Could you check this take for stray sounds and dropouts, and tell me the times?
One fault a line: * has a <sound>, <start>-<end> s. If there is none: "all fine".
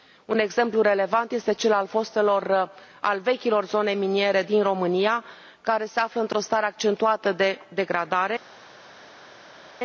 all fine